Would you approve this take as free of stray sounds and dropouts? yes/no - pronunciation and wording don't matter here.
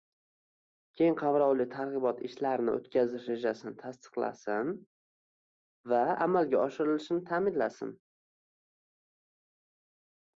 yes